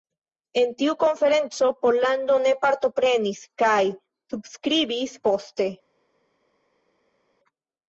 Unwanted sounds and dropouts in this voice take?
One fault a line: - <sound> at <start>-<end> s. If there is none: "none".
none